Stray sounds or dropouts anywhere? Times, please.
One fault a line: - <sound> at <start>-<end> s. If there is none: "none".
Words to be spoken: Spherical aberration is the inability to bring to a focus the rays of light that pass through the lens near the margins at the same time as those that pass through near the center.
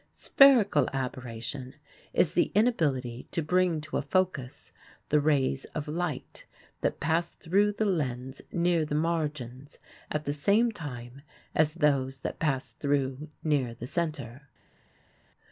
none